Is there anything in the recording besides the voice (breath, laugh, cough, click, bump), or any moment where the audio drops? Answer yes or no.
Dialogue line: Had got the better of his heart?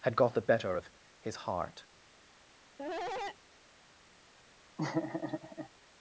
yes